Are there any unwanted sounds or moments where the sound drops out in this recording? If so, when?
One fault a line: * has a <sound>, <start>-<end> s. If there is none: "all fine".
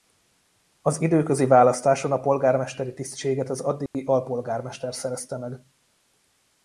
* has a dropout, 3.9-3.9 s